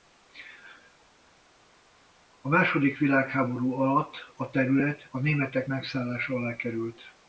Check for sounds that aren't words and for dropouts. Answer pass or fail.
pass